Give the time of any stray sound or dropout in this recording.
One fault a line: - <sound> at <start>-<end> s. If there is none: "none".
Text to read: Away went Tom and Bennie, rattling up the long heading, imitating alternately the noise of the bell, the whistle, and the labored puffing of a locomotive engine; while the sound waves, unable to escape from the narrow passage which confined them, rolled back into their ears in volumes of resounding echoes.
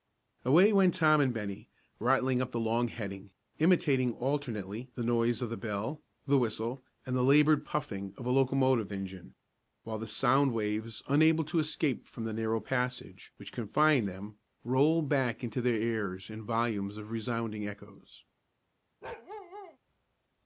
- bark at 19.0-19.8 s